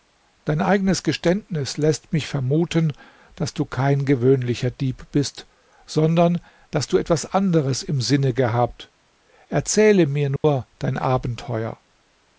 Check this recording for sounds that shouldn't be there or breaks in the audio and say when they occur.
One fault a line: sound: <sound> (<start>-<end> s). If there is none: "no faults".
sound: dropout (10.4-10.4 s)